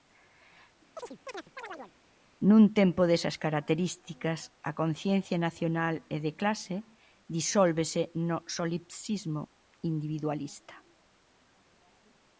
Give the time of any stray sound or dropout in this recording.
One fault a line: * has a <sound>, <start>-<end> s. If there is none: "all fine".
* has a chirp, 1.0-1.9 s